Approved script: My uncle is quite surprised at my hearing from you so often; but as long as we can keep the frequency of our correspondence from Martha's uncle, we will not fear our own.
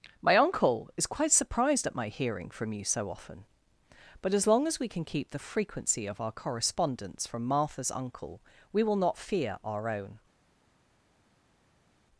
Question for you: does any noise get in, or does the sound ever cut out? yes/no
no